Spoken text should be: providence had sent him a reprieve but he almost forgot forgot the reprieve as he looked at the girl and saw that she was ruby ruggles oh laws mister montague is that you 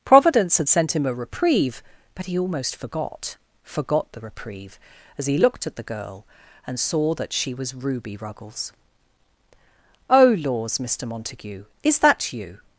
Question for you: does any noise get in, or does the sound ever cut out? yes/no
no